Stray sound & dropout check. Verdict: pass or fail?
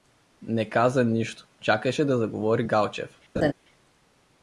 fail